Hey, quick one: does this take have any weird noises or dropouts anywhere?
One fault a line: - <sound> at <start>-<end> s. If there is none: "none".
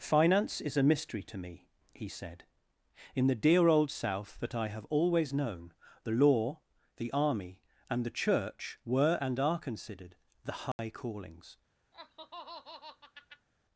- dropout at 10.7-10.8 s
- laugh at 11.9-13.5 s